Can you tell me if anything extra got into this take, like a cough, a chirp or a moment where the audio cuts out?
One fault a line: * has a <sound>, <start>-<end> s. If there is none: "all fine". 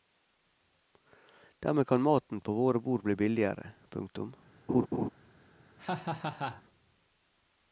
* has a laugh, 4.7-5.1 s
* has a laugh, 5.8-6.6 s